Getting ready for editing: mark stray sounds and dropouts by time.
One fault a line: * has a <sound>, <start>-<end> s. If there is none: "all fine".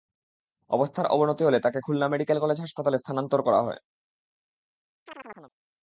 * has a chirp, 5.1-5.5 s